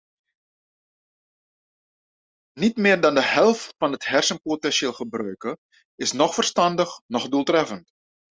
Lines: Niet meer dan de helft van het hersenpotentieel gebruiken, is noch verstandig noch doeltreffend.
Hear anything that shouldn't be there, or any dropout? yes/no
no